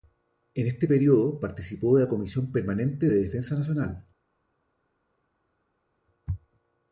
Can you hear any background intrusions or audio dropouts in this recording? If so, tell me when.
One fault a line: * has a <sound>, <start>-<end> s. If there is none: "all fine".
all fine